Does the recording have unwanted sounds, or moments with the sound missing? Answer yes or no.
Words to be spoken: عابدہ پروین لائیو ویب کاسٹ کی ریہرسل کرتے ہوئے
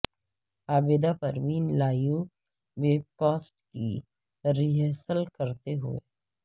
no